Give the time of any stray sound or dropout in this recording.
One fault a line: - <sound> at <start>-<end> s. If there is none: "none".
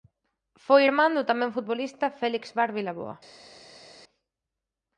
none